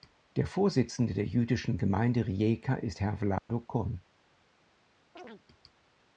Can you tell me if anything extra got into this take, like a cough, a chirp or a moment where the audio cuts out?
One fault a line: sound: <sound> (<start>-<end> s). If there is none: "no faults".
sound: dropout (3.4-3.5 s)
sound: chirp (5.2-5.4 s)